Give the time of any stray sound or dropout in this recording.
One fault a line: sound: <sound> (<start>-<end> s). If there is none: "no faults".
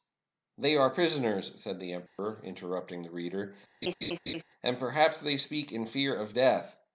sound: dropout (2.1-2.2 s)
sound: laugh (3.8-4.4 s)